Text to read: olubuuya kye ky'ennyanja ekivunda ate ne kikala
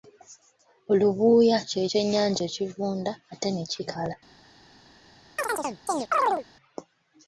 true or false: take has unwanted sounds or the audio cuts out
true